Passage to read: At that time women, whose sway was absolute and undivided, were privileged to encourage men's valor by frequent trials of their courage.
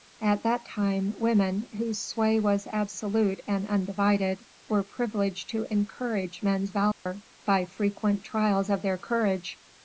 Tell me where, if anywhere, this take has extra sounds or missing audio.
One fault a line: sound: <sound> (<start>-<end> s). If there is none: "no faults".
sound: dropout (6.9-7.1 s)